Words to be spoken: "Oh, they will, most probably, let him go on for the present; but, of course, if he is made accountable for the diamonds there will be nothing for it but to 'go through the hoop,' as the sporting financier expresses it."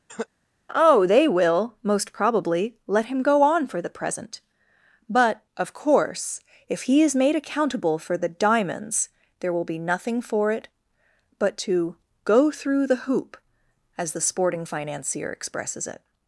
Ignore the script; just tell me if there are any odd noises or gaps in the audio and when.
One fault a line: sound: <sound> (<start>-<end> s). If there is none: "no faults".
sound: cough (0.1-0.3 s)